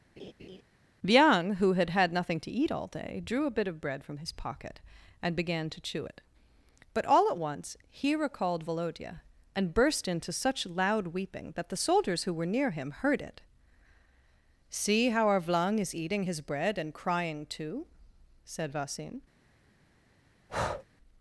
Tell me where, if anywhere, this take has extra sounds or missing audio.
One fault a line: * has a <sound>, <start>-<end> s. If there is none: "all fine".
* has a laugh, 0.2-0.6 s
* has a breath, 20.5-20.9 s